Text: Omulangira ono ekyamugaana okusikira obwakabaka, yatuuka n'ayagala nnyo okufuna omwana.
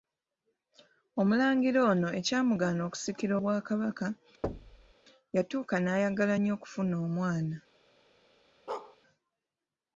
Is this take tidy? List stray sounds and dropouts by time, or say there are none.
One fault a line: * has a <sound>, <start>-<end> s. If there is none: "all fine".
* has a thud, 4.4-4.9 s
* has a bark, 8.7-9.0 s